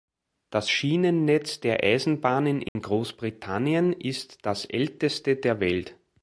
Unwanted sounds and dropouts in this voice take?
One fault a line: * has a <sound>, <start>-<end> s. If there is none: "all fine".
* has a dropout, 2.7-2.8 s